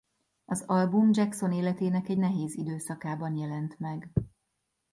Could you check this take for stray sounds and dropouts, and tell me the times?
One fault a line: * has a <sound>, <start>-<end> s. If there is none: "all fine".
all fine